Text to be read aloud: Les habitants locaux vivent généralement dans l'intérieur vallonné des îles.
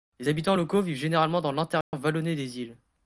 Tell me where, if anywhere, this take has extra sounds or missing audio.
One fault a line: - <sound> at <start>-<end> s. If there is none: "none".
- dropout at 1.8-1.9 s